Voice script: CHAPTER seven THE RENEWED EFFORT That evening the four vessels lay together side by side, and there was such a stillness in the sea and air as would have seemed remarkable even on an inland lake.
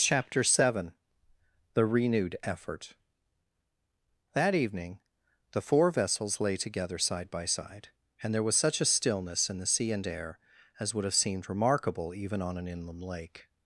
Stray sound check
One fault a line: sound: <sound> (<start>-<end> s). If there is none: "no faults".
no faults